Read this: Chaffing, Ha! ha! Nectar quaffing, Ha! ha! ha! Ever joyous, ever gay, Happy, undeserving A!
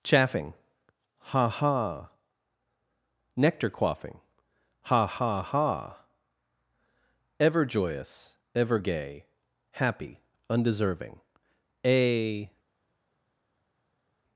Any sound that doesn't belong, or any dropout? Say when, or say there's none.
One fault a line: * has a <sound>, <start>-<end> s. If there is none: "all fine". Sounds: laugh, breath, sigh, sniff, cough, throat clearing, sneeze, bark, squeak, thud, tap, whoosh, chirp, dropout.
all fine